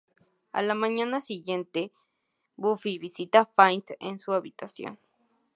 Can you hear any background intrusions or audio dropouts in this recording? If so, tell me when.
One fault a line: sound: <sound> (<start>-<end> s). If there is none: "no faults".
no faults